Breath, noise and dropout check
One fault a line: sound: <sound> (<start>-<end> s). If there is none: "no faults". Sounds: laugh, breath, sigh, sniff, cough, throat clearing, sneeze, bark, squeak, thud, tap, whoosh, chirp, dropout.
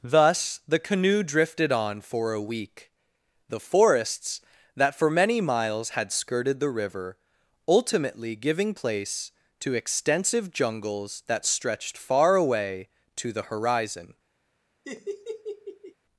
sound: laugh (14.8-15.9 s)